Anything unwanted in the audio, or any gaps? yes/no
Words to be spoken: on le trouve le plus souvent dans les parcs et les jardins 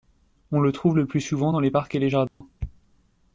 yes